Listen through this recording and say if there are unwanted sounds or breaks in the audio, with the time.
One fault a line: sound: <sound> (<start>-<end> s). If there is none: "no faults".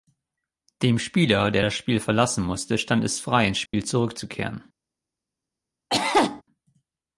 sound: dropout (3.7-3.7 s)
sound: cough (5.9-6.4 s)